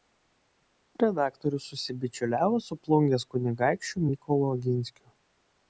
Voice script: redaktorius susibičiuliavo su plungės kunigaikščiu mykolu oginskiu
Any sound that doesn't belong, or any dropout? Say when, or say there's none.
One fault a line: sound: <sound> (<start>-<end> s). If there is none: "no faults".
no faults